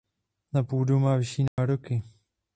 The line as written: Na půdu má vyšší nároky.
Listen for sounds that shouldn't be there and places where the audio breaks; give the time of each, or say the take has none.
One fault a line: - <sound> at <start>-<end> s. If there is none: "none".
- dropout at 1.5-1.6 s